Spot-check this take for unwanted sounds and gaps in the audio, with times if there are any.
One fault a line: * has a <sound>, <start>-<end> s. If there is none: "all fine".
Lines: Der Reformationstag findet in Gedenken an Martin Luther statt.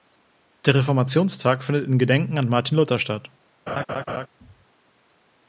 * has a laugh, 3.7-4.3 s